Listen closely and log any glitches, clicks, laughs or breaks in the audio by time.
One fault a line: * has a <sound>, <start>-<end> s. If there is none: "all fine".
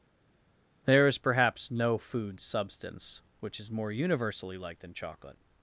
all fine